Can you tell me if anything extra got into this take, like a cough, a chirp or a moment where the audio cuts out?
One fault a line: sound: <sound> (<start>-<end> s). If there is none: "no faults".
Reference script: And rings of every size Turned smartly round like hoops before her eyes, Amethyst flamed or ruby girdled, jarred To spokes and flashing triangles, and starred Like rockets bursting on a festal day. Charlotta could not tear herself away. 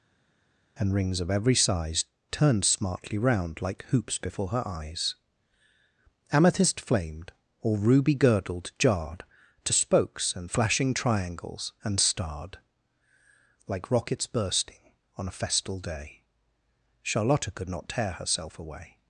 no faults